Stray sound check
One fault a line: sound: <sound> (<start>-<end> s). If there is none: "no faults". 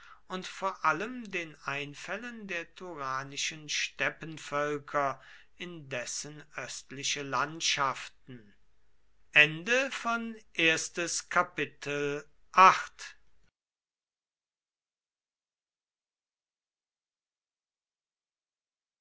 no faults